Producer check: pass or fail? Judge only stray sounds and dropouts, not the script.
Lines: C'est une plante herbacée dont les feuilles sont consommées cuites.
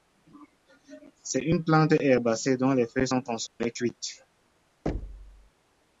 fail